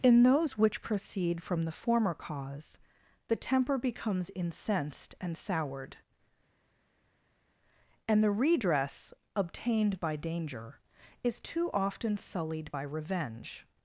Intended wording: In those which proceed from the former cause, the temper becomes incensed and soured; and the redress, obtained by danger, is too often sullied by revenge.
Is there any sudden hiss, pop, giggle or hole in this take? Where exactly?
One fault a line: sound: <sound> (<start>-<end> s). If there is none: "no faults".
no faults